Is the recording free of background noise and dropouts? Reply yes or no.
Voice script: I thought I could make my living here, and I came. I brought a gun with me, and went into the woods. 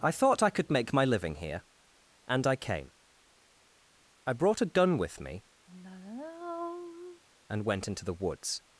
no